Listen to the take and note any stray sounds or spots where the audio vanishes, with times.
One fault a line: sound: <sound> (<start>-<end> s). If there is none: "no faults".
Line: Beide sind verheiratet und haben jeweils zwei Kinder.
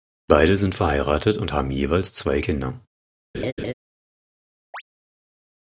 sound: laugh (3.3-3.7 s)
sound: chirp (4.7-4.8 s)